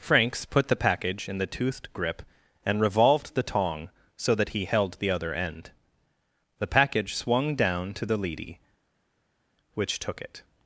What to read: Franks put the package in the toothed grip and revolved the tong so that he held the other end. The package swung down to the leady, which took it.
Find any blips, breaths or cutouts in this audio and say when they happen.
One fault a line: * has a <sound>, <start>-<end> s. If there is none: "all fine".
all fine